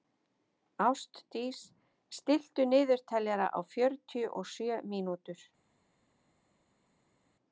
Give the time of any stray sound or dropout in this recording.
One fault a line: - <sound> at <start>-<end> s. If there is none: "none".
none